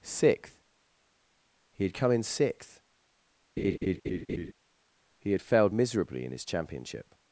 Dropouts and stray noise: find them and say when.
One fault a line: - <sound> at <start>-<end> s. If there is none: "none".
- laugh at 3.6-4.5 s